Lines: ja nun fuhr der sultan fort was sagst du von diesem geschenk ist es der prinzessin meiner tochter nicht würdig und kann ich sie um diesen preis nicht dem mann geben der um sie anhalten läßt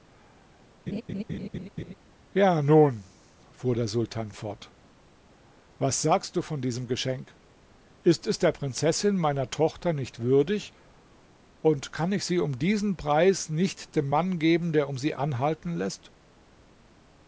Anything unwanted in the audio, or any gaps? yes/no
yes